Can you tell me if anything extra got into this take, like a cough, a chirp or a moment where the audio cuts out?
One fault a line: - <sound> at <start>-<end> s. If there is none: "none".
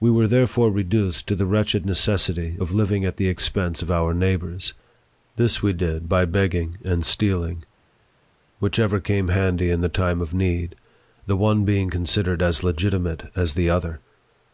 none